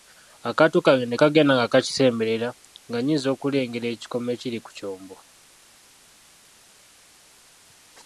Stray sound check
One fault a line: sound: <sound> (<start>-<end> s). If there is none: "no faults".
no faults